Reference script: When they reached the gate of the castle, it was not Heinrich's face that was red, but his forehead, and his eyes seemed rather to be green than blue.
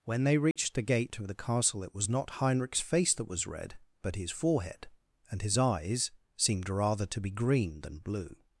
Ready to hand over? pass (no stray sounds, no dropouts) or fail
fail